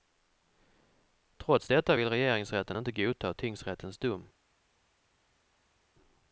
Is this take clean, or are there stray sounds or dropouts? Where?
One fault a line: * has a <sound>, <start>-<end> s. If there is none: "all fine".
all fine